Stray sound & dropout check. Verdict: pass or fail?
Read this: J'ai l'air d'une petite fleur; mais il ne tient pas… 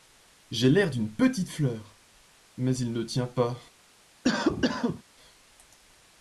fail